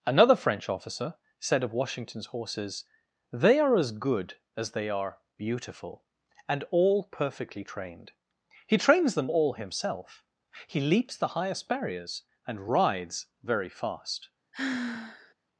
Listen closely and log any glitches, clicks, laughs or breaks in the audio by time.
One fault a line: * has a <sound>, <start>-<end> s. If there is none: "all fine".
* has a sigh, 14.5-15.3 s